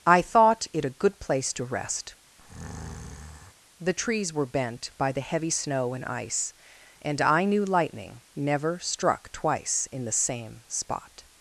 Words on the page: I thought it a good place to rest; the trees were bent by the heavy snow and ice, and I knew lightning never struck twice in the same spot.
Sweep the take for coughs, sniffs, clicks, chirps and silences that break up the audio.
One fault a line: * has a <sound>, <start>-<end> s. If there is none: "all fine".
* has a breath, 2.4-3.5 s